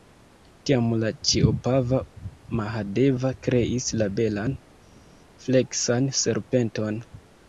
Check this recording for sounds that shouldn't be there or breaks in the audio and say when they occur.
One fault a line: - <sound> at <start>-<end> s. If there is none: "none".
none